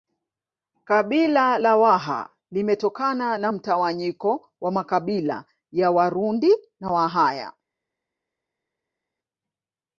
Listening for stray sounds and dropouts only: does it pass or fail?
pass